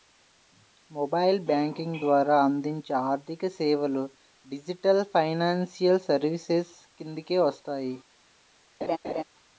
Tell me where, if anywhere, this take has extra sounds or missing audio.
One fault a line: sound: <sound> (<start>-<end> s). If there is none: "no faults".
sound: laugh (8.8-9.2 s)